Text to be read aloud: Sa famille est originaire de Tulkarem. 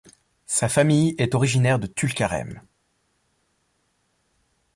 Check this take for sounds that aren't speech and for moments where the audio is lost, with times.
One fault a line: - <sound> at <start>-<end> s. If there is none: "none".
none